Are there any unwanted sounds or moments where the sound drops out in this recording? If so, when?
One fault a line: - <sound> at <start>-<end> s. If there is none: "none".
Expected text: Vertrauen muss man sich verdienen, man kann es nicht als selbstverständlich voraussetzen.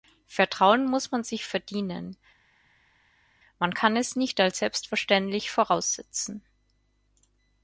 none